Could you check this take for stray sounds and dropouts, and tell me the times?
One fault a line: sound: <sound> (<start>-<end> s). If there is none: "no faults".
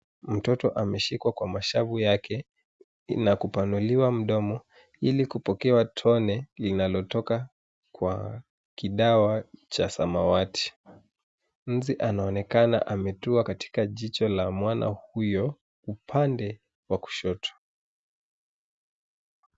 no faults